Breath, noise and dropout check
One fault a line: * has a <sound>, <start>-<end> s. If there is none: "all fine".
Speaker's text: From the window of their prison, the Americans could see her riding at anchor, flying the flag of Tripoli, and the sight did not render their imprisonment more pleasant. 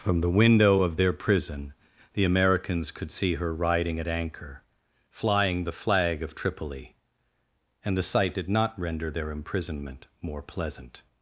all fine